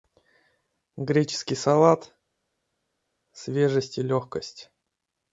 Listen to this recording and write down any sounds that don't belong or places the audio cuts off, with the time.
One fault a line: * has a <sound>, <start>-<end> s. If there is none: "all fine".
all fine